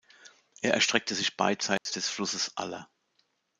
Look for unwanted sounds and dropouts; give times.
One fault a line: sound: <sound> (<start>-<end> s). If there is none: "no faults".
sound: dropout (1.8-1.9 s)